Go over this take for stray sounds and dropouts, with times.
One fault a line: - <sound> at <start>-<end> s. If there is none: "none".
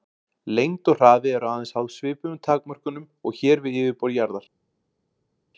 none